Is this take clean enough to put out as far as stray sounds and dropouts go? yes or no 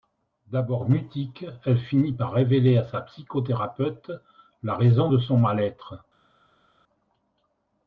yes